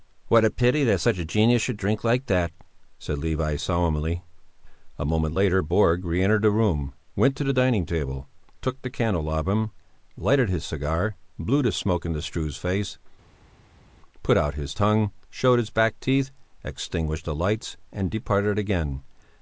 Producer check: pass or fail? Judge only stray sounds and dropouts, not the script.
pass